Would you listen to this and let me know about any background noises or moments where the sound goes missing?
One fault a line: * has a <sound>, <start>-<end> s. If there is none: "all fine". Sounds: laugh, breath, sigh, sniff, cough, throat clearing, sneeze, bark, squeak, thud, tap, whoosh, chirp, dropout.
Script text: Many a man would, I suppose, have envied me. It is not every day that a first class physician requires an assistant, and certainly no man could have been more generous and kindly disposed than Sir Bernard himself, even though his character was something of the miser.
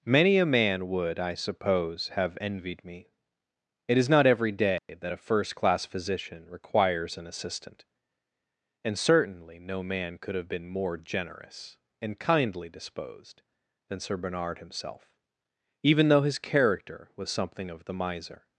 * has a dropout, 4.8-4.9 s